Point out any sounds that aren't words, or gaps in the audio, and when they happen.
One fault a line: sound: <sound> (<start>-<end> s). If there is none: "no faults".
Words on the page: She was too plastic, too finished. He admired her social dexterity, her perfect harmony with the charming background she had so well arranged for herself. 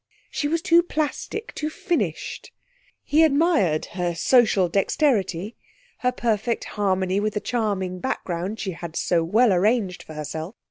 no faults